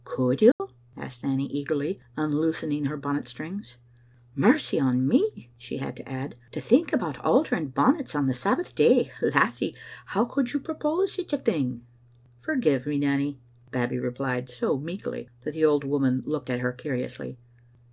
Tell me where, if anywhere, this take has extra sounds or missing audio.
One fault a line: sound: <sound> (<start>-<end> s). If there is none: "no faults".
sound: dropout (0.5-0.6 s)